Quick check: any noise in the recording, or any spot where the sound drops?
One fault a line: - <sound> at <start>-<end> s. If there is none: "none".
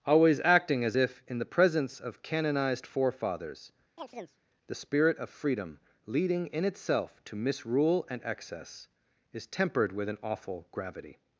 - chirp at 4.0-4.4 s